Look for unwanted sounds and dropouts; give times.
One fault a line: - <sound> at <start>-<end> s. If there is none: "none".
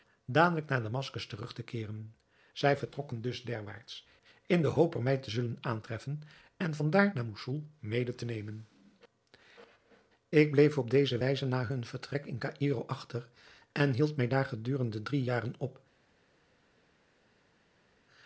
none